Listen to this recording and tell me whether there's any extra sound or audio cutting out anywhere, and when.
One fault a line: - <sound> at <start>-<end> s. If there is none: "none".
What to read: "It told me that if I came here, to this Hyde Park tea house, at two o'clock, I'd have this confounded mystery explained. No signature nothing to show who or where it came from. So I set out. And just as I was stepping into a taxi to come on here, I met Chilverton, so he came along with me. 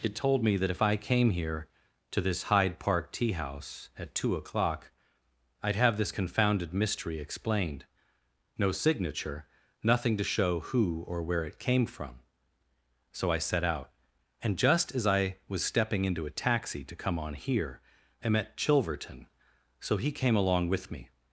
none